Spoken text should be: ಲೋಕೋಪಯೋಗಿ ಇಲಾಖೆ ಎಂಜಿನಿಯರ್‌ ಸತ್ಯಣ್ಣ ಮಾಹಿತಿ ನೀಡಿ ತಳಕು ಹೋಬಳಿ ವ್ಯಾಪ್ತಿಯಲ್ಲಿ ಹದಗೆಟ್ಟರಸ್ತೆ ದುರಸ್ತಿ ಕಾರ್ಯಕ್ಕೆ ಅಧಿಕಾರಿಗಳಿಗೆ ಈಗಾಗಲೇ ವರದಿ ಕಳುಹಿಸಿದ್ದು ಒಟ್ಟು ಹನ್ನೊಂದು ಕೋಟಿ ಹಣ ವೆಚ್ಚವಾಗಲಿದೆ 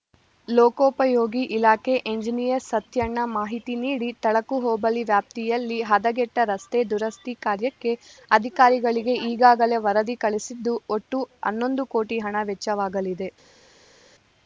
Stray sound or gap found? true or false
false